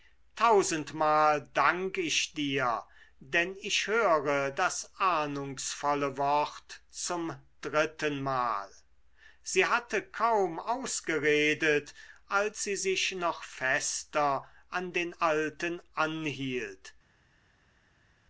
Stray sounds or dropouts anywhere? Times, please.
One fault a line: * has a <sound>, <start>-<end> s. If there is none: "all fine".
all fine